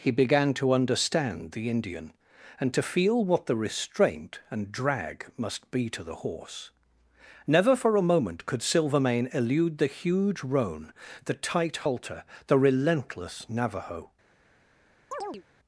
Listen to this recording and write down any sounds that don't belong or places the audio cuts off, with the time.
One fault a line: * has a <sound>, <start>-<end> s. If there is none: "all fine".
* has a chirp, 15.1-15.4 s